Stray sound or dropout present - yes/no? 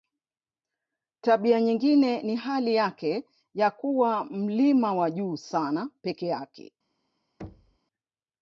yes